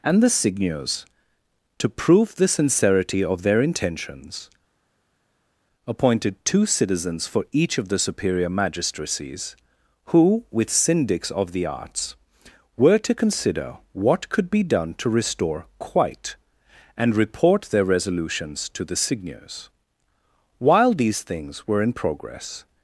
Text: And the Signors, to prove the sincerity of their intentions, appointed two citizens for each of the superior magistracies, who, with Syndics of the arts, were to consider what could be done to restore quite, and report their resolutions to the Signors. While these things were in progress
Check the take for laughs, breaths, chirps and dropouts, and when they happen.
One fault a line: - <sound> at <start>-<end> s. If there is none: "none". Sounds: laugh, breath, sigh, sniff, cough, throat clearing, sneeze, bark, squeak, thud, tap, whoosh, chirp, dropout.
none